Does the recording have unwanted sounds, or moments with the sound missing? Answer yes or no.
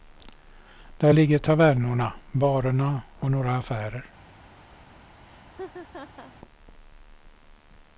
yes